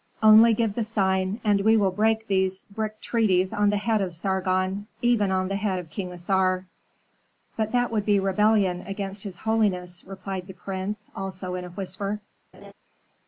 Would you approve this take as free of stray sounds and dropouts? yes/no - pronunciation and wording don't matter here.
no